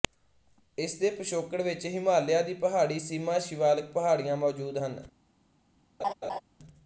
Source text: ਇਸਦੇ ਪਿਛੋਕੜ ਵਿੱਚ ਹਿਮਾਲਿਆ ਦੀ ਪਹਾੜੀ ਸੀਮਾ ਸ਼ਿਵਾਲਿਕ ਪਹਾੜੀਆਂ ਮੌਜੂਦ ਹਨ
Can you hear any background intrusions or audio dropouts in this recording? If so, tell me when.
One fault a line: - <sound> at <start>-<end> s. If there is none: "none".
- laugh at 6.0-6.4 s